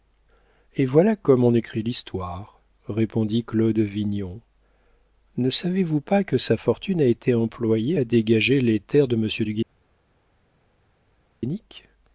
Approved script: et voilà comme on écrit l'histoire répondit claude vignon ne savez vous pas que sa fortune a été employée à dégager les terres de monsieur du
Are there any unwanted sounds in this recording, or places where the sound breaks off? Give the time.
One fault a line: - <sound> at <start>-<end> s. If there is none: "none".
none